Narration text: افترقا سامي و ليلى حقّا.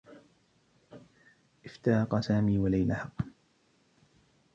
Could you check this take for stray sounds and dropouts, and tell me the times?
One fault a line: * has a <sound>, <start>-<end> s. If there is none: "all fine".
all fine